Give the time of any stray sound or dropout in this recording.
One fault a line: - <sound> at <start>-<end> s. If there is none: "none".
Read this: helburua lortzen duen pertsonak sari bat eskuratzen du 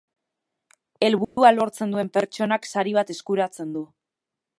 - dropout at 1.2-1.4 s